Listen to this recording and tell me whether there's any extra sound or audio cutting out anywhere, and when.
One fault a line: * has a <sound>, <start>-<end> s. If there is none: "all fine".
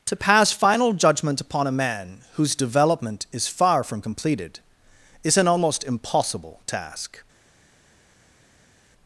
all fine